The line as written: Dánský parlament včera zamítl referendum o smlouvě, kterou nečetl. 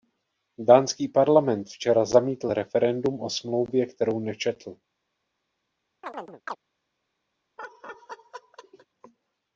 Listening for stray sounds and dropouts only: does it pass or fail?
fail